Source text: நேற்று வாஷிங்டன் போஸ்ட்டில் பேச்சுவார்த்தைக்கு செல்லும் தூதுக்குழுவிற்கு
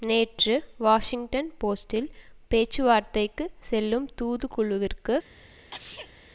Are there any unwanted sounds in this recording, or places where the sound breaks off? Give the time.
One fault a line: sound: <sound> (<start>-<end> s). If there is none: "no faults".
sound: sneeze (5.7-6.1 s)